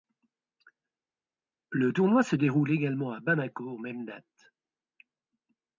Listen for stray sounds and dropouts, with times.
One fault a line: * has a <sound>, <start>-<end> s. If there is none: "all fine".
all fine